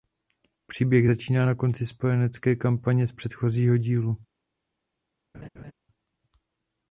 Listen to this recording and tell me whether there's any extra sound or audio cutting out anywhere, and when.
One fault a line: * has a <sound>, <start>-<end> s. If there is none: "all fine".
* has a laugh, 5.3-5.7 s